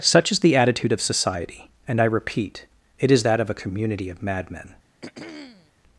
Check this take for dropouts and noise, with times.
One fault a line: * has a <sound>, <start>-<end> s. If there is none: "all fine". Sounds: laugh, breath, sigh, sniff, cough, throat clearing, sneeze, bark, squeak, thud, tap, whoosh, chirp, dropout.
* has a throat clearing, 5.0-5.7 s